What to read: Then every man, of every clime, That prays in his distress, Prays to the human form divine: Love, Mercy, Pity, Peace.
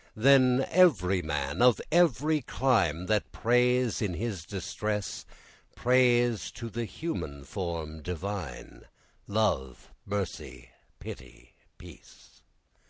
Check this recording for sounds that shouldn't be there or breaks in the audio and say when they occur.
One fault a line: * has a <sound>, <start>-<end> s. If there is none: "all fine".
all fine